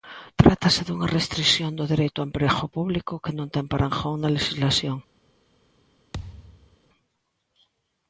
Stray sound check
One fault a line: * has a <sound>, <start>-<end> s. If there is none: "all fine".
* has a thud, 6.1-6.8 s